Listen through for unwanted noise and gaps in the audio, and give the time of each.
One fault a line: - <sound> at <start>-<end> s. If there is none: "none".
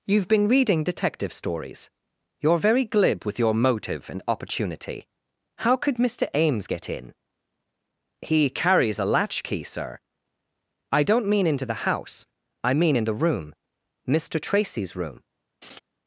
- laugh at 15.6-15.8 s